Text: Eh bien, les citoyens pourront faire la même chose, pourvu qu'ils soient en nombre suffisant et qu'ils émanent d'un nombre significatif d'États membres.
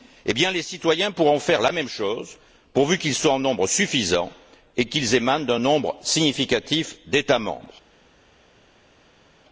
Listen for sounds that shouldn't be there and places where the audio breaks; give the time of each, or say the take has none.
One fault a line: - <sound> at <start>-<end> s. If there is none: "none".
none